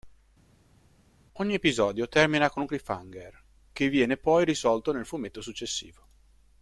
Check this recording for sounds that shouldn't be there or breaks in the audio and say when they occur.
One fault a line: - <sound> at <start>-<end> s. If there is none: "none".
none